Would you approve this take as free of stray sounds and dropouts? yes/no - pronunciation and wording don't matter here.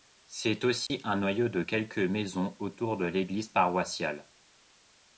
no